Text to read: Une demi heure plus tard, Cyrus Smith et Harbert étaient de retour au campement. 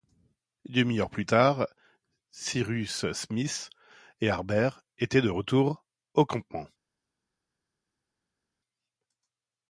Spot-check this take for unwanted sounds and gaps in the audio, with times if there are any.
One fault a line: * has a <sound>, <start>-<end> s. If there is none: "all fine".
all fine